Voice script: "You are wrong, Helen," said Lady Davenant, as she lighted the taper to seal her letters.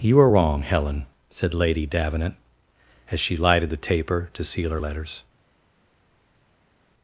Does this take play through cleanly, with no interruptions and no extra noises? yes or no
yes